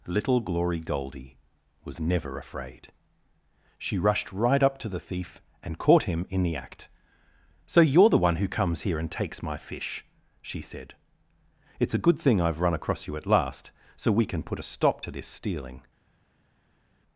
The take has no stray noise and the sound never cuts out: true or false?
true